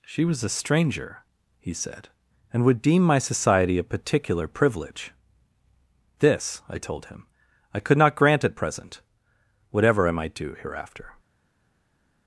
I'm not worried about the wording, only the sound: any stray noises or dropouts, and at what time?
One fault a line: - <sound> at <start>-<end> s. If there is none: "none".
none